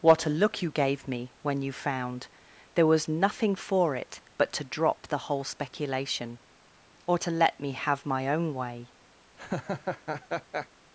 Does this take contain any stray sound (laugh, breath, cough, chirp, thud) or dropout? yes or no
yes